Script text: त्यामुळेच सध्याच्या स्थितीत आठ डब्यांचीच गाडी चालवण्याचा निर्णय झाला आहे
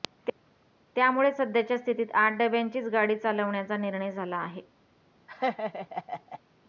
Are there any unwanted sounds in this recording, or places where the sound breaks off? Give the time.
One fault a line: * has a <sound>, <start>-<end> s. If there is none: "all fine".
* has a laugh, 5.3-6.4 s